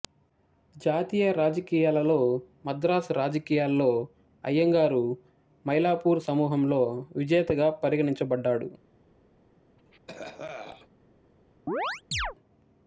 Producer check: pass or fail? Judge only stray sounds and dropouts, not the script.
fail